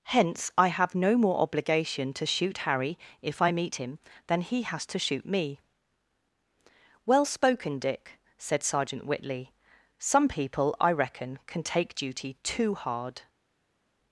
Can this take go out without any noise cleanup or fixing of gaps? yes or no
yes